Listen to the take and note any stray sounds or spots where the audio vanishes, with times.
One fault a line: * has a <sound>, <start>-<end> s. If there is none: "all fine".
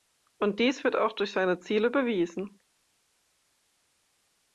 all fine